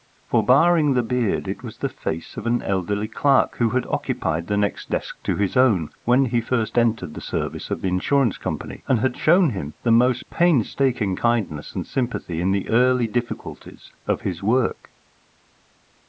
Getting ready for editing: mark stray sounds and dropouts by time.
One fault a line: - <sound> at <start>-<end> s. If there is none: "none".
none